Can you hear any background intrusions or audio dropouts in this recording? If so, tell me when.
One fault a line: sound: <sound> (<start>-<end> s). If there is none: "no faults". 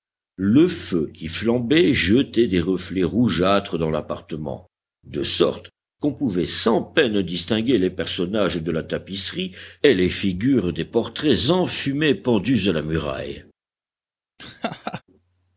sound: laugh (14.4-15.0 s)